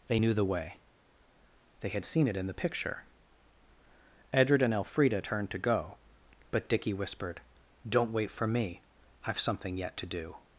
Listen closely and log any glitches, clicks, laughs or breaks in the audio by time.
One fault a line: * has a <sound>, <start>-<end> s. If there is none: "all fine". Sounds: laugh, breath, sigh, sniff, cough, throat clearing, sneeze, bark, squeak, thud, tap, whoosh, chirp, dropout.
all fine